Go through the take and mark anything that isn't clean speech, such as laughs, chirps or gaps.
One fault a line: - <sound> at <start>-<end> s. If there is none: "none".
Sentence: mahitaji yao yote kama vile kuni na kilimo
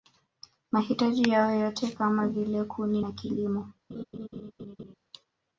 - laugh at 3.9-5.0 s